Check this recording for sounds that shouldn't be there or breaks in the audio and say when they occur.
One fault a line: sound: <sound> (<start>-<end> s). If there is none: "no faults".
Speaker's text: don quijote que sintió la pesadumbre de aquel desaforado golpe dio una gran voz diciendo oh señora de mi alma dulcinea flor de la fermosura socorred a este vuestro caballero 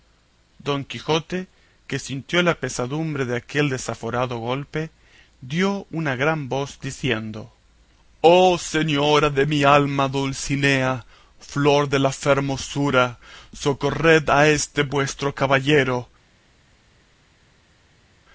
no faults